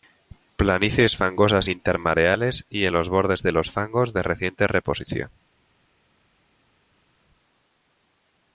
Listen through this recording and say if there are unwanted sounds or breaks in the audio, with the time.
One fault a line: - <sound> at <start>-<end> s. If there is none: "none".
none